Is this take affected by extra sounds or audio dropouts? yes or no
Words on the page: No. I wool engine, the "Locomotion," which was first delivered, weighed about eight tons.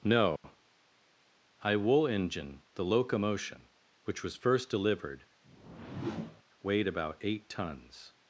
yes